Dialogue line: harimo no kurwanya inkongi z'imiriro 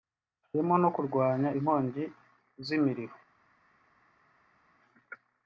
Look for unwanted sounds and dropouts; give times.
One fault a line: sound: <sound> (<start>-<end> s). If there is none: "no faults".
no faults